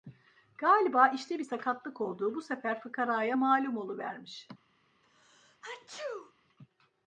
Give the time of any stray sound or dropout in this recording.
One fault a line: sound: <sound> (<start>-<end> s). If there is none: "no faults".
sound: sneeze (5.0-6.3 s)